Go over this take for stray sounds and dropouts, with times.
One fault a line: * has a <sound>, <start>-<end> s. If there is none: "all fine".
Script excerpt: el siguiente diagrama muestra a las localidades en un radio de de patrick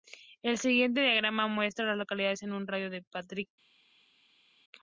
all fine